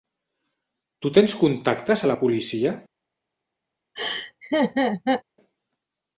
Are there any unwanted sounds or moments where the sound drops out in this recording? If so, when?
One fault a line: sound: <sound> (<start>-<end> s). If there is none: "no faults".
sound: laugh (4.0-5.2 s)